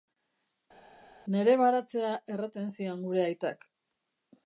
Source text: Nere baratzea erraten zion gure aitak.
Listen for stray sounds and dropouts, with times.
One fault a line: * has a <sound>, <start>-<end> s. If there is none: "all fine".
all fine